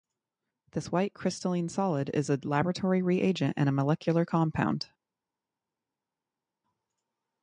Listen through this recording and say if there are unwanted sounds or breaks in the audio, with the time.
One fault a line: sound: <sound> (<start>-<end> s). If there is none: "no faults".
no faults